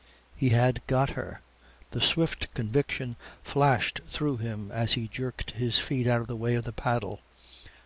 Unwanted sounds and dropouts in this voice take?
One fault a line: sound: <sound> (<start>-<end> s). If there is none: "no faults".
no faults